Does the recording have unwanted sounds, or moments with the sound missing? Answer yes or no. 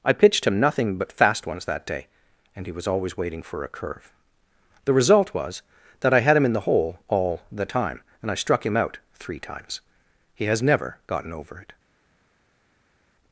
no